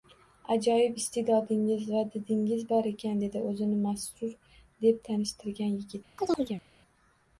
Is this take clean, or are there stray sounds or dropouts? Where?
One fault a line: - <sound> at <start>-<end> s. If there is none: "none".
- chirp at 6.2-6.6 s